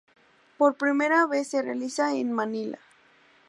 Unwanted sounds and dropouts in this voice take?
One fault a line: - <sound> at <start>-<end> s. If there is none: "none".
none